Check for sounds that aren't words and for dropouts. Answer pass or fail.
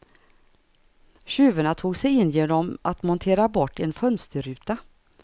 pass